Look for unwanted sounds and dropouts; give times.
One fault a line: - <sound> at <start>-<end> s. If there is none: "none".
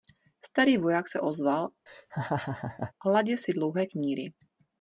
- laugh at 1.9-2.9 s